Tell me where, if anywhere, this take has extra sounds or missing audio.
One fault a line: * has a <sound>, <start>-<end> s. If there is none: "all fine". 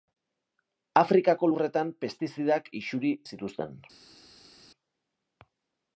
all fine